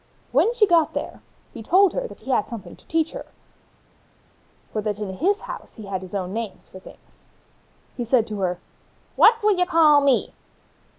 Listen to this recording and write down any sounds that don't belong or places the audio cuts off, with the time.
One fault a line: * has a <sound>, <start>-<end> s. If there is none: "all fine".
all fine